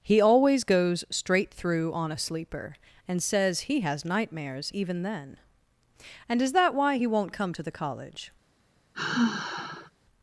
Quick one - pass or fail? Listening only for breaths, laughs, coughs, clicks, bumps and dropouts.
fail